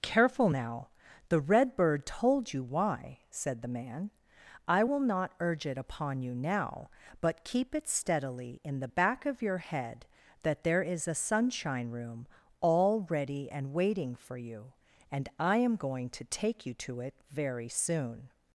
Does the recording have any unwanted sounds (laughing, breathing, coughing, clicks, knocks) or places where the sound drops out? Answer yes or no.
no